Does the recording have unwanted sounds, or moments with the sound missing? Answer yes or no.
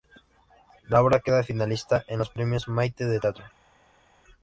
no